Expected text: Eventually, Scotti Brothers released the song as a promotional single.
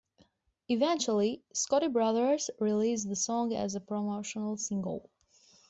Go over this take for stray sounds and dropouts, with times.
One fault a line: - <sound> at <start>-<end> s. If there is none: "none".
none